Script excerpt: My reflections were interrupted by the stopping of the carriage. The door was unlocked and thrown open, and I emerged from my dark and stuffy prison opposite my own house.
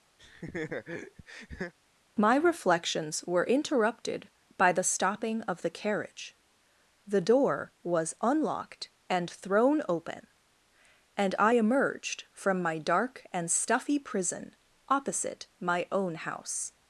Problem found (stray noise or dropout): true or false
true